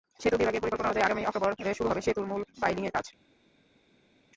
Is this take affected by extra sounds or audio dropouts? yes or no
no